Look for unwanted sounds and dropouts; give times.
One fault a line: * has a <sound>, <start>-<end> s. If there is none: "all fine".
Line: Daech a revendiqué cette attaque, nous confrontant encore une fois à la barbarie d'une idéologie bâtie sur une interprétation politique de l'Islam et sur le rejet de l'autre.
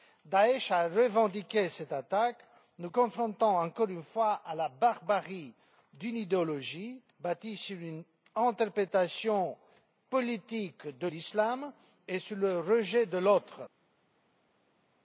all fine